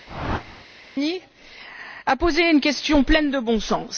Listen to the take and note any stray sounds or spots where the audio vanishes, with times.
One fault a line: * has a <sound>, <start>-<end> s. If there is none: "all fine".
* has a whoosh, 0.1-0.7 s